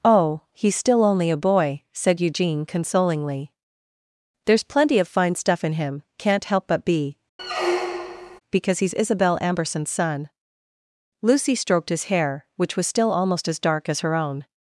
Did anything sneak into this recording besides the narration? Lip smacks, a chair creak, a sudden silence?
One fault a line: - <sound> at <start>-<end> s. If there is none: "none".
- squeak at 7.4-8.4 s